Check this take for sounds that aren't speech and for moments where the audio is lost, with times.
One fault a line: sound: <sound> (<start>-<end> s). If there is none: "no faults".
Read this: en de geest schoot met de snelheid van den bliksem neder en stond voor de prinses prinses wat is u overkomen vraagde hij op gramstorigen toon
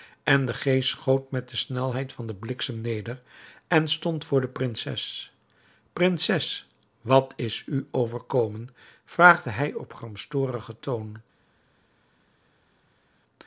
no faults